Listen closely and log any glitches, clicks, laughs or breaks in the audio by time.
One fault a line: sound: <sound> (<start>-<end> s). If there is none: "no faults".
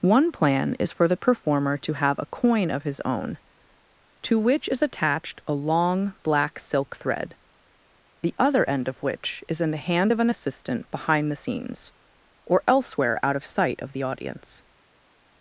no faults